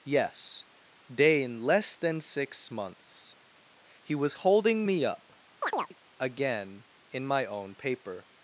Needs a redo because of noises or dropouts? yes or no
yes